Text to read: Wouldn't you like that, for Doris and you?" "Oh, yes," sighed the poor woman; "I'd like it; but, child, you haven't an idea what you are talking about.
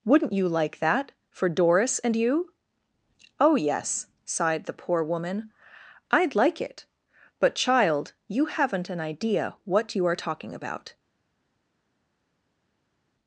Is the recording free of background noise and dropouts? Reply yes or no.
yes